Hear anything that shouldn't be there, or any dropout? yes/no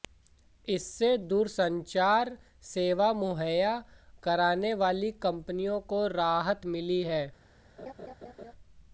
yes